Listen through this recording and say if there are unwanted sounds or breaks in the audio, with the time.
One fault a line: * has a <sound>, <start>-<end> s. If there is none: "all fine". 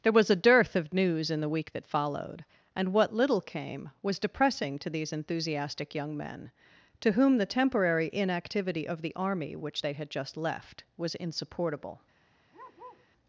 * has a bark, 12.5-13.1 s